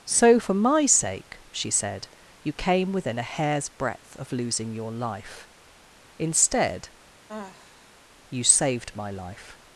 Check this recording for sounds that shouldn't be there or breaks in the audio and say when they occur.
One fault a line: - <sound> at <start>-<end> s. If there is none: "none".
- sigh at 7.3-7.9 s